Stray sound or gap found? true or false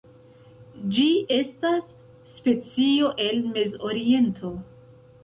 false